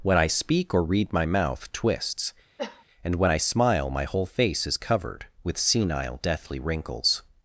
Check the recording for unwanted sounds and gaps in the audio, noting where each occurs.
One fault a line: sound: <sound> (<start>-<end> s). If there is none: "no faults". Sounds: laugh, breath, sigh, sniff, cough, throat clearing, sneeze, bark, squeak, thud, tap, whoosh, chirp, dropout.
sound: cough (2.6-2.8 s)